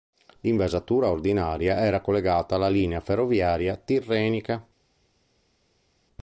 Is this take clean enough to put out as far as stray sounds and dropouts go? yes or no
yes